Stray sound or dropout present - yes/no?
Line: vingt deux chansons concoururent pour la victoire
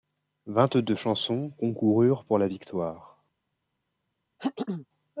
yes